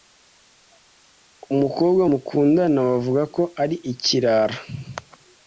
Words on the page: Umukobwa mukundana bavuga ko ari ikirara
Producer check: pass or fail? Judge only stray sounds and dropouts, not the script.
pass